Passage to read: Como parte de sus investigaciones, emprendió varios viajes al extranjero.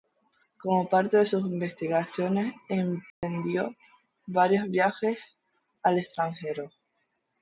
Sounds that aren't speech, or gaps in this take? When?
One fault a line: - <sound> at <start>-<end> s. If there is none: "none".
- dropout at 3.1-3.2 s